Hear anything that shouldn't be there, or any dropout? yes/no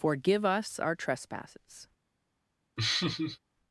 yes